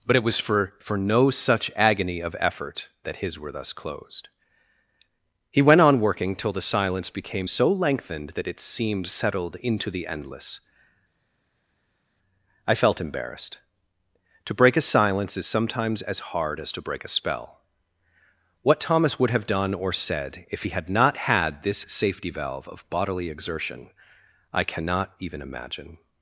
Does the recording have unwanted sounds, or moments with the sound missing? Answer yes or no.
no